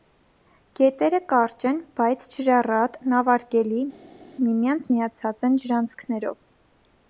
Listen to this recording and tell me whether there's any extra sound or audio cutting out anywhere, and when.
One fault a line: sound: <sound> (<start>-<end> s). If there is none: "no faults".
no faults